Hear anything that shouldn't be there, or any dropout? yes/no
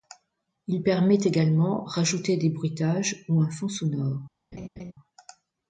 yes